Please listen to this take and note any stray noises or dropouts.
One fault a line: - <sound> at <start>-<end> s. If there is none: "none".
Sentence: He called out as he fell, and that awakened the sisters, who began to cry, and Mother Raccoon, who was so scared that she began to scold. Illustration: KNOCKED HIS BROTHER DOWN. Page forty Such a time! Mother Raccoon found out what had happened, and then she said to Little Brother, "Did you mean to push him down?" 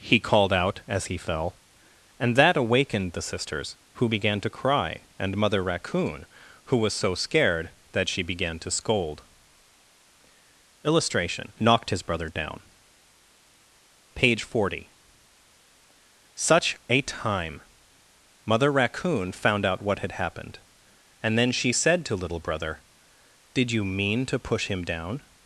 none